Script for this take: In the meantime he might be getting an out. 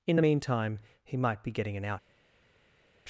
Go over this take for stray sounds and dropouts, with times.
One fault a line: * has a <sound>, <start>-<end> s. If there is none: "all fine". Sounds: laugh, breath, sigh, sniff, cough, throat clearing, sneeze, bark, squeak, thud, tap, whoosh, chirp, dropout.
all fine